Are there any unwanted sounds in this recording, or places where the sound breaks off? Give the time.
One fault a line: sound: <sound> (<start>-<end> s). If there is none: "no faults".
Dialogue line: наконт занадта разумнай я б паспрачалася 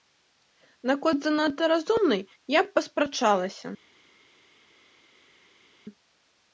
no faults